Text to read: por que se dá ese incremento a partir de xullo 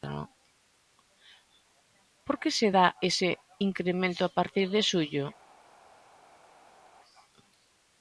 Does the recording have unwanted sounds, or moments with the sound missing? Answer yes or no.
no